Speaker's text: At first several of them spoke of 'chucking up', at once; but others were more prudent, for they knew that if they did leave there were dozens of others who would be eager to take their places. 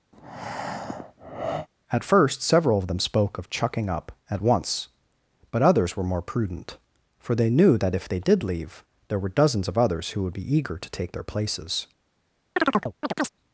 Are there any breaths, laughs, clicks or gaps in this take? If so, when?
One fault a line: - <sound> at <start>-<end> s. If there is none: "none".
- breath at 0.1-1.7 s
- chirp at 12.6-13.3 s